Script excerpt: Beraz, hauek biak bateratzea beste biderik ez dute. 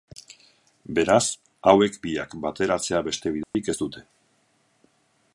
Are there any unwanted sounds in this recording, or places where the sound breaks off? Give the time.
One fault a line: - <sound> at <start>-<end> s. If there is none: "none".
- dropout at 3.4-3.5 s